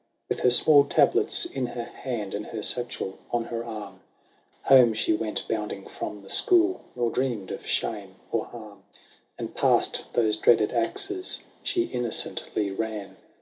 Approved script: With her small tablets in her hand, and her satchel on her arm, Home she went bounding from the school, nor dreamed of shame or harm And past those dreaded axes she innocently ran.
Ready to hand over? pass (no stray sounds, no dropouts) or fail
pass